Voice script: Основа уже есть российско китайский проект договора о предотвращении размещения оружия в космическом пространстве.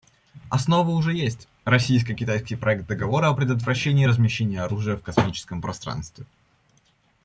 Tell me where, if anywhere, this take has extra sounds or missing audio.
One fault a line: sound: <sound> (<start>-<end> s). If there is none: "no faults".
no faults